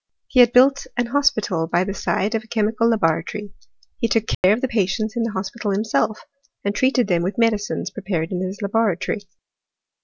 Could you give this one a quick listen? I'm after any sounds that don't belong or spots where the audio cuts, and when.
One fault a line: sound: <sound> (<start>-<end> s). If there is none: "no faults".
sound: dropout (4.3-4.4 s)